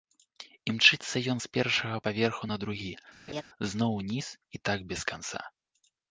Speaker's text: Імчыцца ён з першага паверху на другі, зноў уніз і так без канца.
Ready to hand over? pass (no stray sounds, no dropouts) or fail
fail